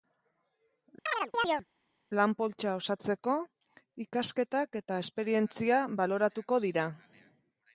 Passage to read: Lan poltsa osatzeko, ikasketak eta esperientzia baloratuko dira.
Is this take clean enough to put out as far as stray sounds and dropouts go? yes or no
no